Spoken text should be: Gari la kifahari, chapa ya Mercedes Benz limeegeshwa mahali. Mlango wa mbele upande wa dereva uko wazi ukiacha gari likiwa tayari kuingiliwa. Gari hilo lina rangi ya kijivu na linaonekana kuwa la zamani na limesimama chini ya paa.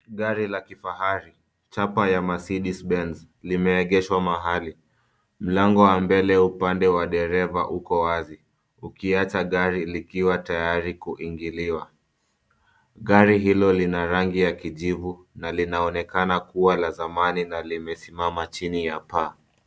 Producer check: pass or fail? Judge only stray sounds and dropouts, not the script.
pass